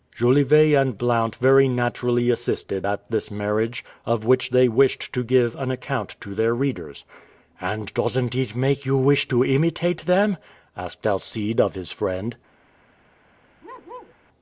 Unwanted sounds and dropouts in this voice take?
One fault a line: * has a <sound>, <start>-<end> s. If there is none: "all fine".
* has a bark, 13.6-14.2 s